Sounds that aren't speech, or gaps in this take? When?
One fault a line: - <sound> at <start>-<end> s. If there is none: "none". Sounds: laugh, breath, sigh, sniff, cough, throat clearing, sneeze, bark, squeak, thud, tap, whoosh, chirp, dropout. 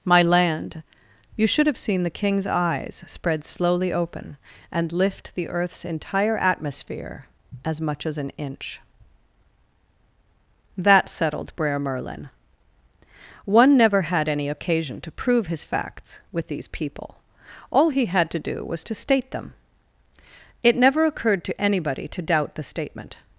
none